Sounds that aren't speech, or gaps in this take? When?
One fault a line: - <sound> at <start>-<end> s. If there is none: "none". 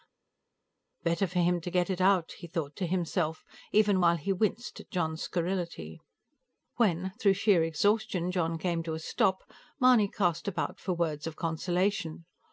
none